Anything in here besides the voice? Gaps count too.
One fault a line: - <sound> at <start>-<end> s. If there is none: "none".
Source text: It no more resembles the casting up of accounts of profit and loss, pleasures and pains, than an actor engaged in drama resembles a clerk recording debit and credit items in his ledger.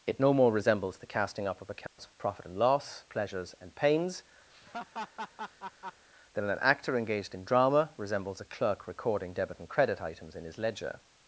- dropout at 1.9-2.0 s
- laugh at 4.5-6.1 s